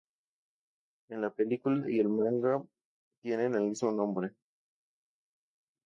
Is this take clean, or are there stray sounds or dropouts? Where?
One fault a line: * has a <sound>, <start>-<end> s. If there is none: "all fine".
all fine